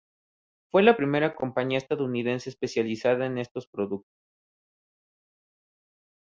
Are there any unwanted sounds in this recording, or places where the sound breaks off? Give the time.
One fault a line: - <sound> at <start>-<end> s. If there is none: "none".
none